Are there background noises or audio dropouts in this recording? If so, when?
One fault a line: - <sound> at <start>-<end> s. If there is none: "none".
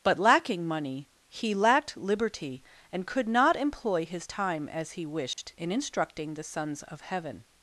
- dropout at 5.3-5.4 s